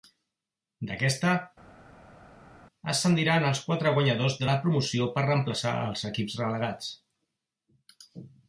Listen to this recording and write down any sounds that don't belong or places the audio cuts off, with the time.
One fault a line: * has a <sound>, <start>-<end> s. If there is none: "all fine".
all fine